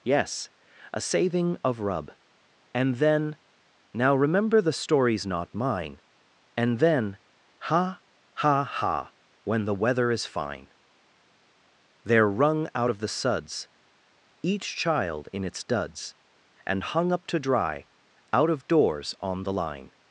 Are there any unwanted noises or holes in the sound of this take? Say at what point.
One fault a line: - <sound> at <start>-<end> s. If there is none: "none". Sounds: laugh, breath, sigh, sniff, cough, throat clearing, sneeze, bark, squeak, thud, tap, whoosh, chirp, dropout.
none